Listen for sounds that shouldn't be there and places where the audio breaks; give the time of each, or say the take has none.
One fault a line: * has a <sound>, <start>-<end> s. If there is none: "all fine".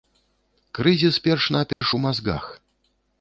* has a dropout, 1.7-1.8 s